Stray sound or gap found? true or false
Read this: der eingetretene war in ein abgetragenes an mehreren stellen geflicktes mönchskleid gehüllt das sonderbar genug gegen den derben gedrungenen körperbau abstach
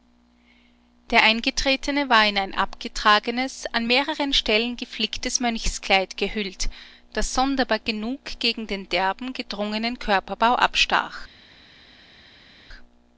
false